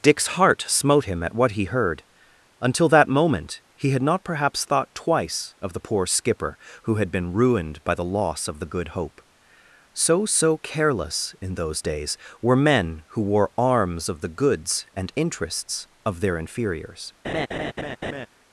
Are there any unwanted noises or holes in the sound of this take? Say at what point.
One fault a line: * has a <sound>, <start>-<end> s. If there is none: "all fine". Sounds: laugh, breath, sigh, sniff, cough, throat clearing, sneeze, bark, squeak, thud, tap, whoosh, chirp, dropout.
* has a laugh, 17.2-18.3 s